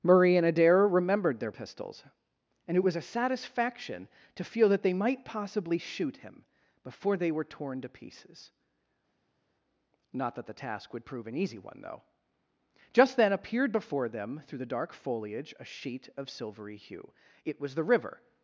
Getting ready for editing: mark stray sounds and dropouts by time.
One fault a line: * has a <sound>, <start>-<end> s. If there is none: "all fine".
all fine